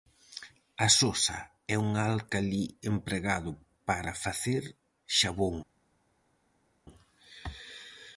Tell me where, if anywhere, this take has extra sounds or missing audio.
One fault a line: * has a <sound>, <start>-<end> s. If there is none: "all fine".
all fine